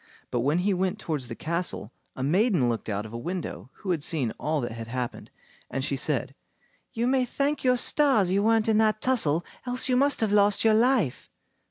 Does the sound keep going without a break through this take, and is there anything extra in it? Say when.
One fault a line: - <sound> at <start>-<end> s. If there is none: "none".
none